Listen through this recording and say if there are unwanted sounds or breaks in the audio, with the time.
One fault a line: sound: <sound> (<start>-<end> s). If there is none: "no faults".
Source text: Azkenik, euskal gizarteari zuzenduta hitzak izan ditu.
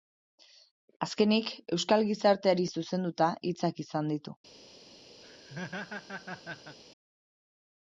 sound: laugh (5.2-6.8 s)